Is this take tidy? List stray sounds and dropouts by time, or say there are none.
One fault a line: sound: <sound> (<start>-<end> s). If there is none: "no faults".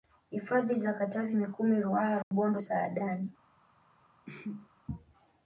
sound: dropout (2.2-2.3 s)
sound: sneeze (4.3-4.7 s)